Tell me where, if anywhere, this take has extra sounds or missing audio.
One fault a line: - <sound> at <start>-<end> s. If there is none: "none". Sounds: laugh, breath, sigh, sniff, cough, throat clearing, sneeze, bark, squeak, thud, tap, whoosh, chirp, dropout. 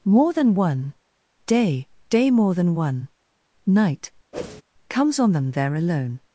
- whoosh at 4.3-4.6 s